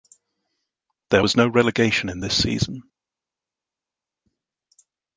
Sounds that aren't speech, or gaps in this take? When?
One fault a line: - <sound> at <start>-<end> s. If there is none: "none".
none